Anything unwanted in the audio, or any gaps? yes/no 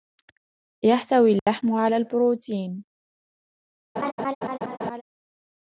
yes